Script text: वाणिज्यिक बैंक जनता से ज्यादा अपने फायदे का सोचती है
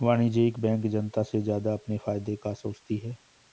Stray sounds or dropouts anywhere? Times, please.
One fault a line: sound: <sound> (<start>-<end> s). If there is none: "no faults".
no faults